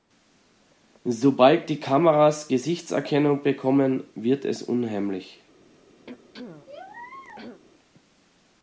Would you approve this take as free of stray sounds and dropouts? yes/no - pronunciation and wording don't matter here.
no